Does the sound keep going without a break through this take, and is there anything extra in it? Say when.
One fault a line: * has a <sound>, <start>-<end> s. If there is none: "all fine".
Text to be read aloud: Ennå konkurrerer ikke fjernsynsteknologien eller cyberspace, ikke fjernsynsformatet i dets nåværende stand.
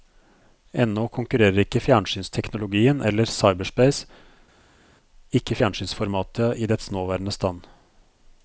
all fine